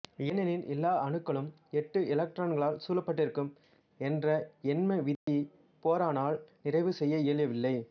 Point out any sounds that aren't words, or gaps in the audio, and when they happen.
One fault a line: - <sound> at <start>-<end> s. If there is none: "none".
- dropout at 5.2-5.3 s